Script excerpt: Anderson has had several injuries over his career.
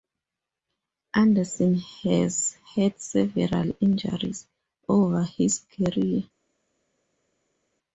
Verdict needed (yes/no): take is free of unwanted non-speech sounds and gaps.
yes